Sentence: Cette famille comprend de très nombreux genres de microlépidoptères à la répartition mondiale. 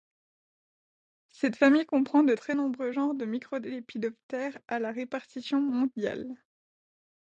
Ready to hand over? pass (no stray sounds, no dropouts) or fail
pass